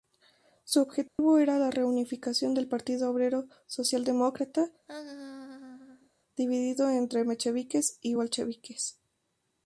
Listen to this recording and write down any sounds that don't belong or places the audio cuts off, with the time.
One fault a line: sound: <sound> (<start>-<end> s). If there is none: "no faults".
sound: dropout (1.1-1.2 s)
sound: laugh (4.9-6.1 s)